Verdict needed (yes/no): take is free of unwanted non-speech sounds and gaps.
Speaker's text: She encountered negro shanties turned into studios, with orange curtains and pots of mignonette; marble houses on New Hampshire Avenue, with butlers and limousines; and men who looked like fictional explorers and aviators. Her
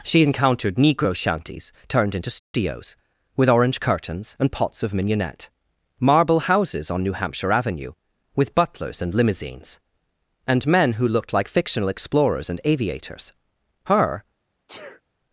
no